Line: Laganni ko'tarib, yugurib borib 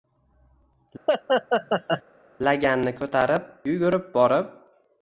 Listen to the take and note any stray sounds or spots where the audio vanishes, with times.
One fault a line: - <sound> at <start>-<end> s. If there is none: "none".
- laugh at 1.1-2.0 s